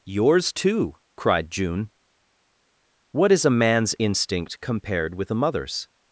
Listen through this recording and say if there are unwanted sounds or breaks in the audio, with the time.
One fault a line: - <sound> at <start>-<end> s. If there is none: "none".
none